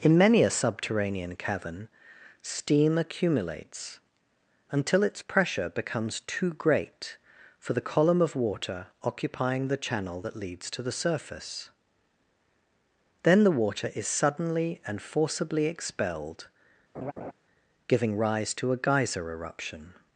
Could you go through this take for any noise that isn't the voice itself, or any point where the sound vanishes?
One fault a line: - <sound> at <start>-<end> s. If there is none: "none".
- laugh at 16.9-17.3 s